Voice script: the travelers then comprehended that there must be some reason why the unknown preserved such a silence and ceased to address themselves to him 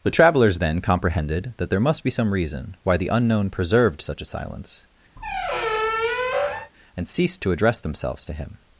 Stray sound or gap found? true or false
true